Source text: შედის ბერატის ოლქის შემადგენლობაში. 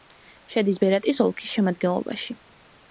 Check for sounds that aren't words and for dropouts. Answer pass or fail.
pass